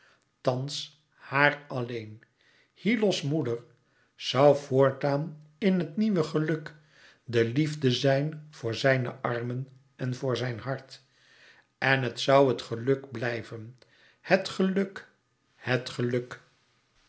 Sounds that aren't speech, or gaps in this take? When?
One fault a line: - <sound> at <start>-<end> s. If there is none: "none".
none